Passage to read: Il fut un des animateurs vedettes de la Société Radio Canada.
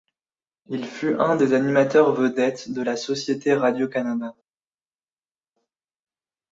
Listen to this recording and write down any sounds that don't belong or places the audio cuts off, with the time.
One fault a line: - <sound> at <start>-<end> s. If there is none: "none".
none